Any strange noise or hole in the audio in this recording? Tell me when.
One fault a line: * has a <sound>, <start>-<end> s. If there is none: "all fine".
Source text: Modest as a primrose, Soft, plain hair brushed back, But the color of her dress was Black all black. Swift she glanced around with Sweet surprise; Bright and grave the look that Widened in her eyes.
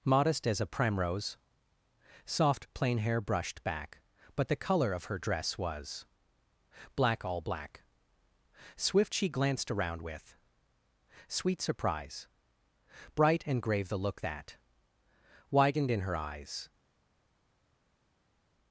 all fine